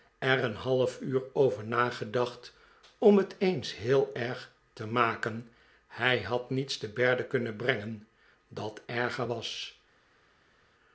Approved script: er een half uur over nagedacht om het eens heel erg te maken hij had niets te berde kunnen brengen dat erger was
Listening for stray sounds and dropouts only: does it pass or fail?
pass